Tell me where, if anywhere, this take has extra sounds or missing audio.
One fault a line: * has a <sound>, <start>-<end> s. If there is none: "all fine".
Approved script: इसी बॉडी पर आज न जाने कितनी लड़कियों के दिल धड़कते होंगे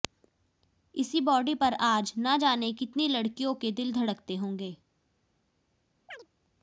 * has a chirp, 6.1-6.3 s